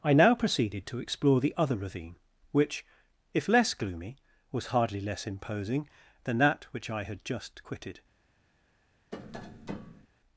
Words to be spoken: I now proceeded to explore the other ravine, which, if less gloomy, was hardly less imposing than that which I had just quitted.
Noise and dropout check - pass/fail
fail